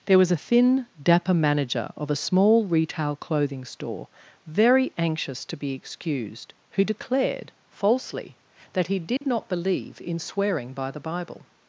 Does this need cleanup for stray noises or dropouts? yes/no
yes